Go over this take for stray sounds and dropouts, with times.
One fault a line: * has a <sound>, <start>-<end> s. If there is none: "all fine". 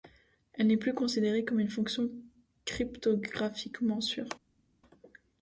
all fine